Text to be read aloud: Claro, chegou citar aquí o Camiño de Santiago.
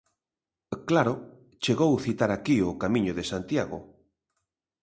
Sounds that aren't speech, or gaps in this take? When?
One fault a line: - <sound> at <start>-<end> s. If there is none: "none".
none